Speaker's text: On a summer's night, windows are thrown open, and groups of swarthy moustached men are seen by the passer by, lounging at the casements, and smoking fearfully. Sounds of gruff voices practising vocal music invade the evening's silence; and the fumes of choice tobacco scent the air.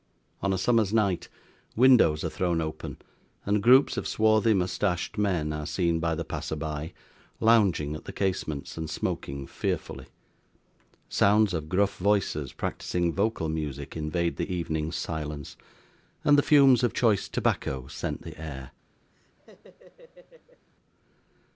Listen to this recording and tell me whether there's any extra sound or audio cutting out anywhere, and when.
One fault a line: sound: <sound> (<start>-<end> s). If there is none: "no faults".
sound: laugh (19.1-20.7 s)